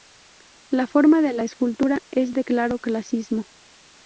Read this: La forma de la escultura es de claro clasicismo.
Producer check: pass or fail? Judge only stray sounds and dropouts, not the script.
pass